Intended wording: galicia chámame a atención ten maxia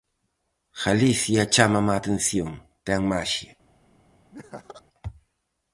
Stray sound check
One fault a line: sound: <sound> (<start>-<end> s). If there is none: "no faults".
sound: laugh (4.3-4.8 s)